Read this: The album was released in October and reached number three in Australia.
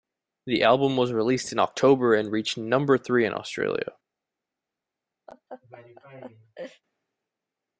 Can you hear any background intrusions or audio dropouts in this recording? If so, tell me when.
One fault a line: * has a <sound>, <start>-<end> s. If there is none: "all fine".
* has a laugh, 5.3-6.8 s